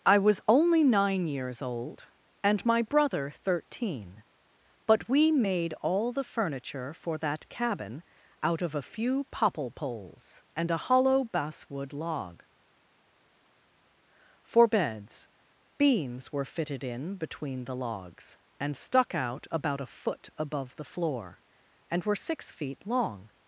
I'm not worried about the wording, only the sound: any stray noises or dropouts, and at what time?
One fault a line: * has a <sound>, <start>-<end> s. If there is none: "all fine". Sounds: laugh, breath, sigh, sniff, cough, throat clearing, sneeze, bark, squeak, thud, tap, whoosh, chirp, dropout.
all fine